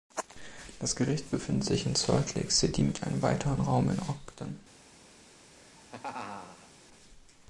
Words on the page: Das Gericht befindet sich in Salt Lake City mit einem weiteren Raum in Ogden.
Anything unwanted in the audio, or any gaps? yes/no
yes